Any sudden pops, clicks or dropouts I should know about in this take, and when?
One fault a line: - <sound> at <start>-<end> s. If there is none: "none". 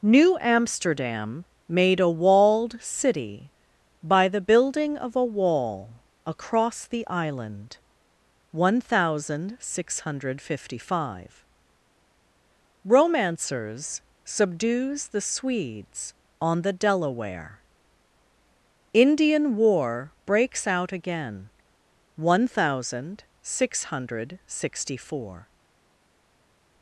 none